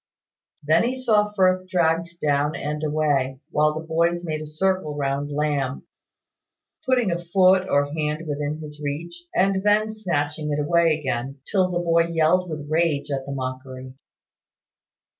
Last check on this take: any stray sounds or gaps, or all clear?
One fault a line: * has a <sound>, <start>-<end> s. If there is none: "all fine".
all fine